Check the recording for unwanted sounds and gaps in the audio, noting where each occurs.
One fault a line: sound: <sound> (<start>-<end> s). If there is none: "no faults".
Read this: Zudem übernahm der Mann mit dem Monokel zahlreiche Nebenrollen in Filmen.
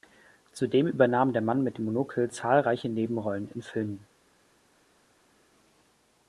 no faults